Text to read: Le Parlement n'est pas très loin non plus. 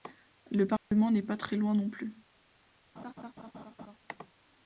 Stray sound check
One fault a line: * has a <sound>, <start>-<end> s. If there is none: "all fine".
* has a dropout, 0.8-0.9 s
* has a laugh, 3.0-4.0 s